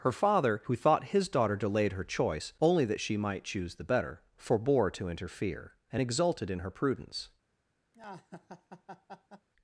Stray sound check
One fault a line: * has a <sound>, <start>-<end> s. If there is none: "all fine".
* has a laugh, 7.9-9.5 s